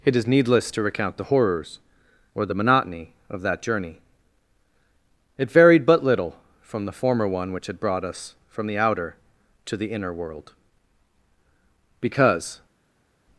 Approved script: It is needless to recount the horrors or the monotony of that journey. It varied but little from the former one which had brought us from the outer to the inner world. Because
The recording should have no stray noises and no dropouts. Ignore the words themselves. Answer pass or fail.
pass